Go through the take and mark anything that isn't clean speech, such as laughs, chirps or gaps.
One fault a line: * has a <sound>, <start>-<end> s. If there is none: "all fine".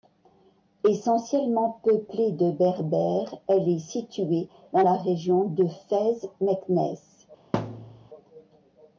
* has a thud, 7.5-8.1 s